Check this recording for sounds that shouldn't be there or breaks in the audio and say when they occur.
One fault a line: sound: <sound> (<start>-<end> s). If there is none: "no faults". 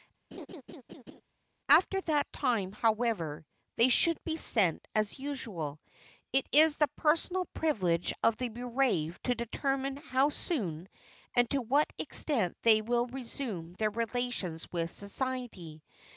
sound: laugh (0.3-1.2 s)